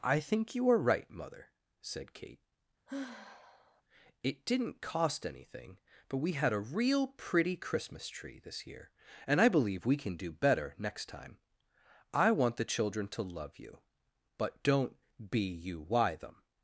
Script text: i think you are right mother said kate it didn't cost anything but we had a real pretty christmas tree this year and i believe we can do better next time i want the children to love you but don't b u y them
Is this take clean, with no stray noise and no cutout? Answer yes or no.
no